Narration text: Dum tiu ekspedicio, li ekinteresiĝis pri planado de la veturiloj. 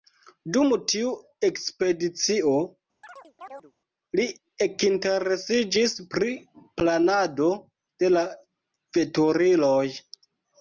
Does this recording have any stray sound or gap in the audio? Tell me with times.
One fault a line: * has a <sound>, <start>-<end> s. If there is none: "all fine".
* has a chirp, 3.0-3.7 s